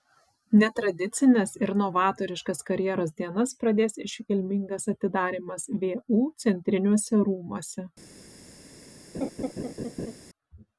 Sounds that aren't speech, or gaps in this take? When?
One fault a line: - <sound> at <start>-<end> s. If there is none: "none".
- laugh at 9.1-10.2 s